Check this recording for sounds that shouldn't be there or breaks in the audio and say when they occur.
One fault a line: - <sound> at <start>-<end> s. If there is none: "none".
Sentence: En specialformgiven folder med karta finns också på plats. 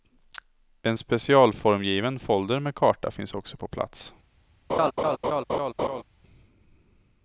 - laugh at 4.7-6.0 s